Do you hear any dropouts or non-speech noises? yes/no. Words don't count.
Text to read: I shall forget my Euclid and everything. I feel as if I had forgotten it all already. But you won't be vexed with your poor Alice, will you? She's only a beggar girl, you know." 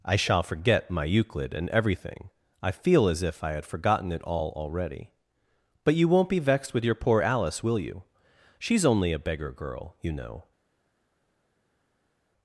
no